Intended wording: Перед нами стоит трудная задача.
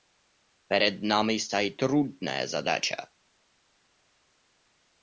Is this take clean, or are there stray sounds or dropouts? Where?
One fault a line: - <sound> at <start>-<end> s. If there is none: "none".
none